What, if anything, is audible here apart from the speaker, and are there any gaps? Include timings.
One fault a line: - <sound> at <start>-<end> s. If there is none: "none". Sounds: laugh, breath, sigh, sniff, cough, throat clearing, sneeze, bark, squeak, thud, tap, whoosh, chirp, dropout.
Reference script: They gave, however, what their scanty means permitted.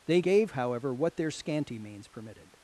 none